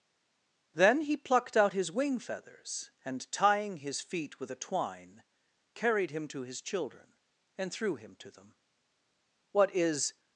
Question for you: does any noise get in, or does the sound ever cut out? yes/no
no